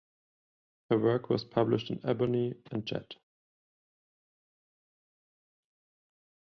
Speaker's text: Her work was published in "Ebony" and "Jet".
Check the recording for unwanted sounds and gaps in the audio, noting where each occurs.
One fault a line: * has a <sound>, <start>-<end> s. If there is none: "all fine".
all fine